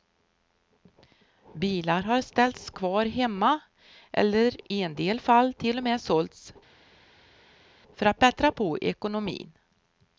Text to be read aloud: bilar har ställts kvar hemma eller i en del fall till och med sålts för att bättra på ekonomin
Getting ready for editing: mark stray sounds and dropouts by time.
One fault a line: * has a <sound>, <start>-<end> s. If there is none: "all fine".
all fine